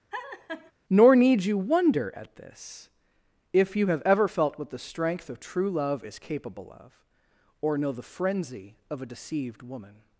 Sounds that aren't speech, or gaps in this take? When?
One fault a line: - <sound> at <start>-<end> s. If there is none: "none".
- laugh at 0.1-0.7 s